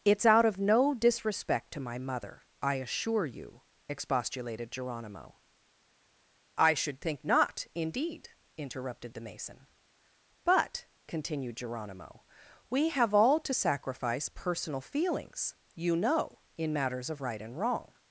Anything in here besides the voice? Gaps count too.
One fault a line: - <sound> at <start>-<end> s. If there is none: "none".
none